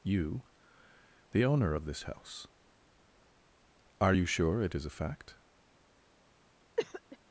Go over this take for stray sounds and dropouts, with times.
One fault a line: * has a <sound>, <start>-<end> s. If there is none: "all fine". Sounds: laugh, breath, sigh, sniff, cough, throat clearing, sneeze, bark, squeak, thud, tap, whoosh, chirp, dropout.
* has a cough, 6.8-7.2 s